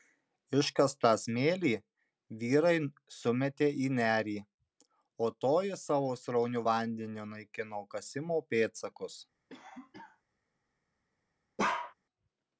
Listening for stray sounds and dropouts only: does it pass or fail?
fail